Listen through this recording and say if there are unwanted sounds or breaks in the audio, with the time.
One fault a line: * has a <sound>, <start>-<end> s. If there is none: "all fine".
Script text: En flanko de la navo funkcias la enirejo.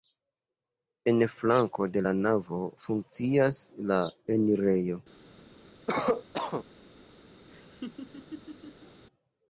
* has a cough, 5.9-6.7 s
* has a laugh, 7.5-9.0 s